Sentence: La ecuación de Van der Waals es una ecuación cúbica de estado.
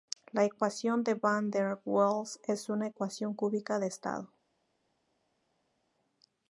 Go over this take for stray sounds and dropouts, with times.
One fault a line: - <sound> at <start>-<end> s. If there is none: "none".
none